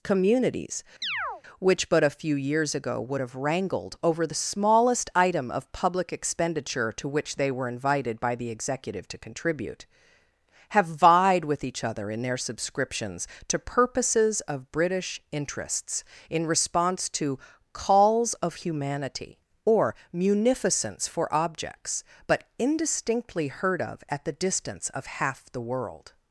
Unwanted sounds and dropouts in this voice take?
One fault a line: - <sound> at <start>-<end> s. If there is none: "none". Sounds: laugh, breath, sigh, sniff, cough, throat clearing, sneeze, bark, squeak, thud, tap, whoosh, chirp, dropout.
- chirp at 1.0-1.4 s